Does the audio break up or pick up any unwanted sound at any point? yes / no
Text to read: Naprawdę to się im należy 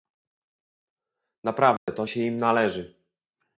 yes